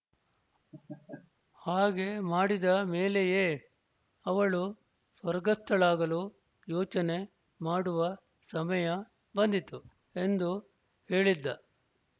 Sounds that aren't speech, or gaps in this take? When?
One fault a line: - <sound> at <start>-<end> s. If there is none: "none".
- laugh at 0.7-1.3 s